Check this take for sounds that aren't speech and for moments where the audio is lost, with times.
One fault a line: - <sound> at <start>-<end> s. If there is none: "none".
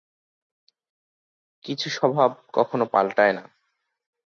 none